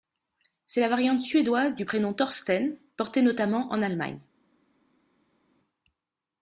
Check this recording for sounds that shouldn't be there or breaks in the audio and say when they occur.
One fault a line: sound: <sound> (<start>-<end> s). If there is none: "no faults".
no faults